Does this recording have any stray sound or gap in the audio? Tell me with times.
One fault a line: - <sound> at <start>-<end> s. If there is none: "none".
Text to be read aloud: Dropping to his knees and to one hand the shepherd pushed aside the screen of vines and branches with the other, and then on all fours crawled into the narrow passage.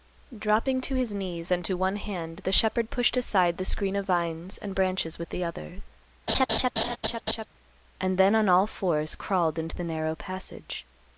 - laugh at 6.3-7.5 s